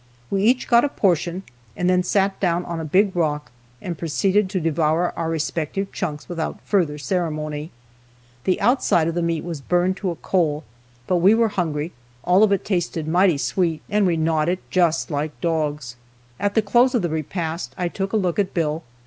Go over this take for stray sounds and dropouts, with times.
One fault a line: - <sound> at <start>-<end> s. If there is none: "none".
none